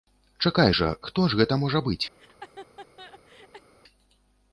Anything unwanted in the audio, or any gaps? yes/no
yes